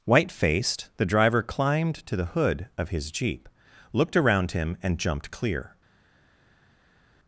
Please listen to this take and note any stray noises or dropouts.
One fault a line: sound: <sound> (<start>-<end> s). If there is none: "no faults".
no faults